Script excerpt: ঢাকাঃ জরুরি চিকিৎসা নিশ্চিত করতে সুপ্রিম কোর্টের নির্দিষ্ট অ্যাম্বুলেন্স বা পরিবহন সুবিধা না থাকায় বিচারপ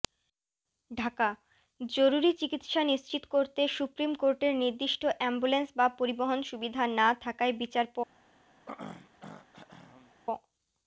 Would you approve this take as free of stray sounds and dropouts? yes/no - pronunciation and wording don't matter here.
no